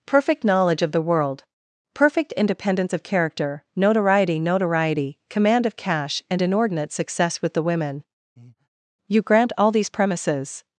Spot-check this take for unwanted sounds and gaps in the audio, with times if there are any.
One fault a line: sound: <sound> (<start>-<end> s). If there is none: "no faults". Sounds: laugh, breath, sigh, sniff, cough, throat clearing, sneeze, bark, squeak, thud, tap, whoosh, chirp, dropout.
sound: breath (8.4-8.7 s)